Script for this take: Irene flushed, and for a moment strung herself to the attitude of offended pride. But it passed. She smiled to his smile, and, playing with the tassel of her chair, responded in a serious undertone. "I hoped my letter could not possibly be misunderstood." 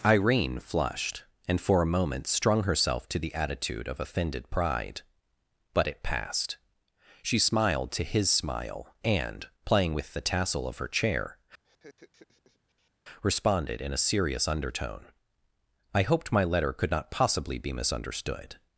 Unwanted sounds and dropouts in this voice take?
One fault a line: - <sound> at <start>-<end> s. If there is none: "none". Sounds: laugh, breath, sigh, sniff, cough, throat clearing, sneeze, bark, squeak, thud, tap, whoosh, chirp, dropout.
- laugh at 11.6-12.9 s